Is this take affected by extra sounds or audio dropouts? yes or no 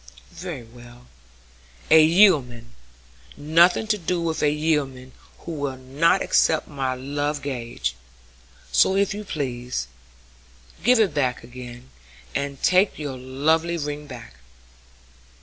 no